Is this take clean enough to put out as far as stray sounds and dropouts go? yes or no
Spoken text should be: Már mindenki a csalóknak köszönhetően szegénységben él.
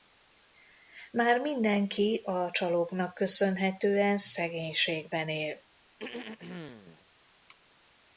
no